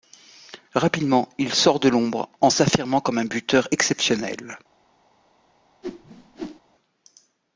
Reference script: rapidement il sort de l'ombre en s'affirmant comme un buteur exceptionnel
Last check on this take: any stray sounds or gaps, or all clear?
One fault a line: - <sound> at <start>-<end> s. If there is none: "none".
- whoosh at 5.8-6.6 s